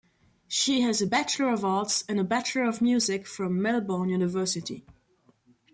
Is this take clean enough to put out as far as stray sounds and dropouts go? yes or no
yes